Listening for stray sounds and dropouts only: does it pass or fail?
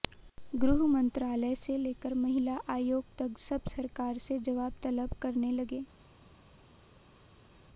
pass